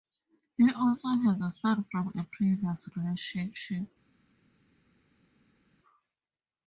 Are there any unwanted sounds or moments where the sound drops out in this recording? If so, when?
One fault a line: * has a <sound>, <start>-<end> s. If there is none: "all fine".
all fine